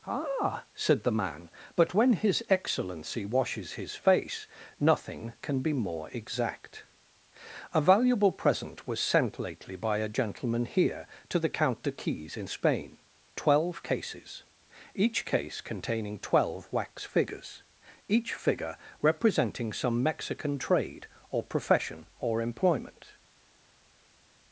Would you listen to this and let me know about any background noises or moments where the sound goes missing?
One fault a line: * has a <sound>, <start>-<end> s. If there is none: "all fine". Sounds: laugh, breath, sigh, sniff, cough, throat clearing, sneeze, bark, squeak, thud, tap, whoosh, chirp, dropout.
all fine